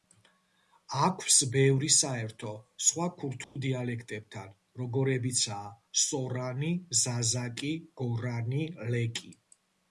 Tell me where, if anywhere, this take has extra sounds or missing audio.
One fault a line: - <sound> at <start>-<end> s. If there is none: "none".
- dropout at 3.4-3.6 s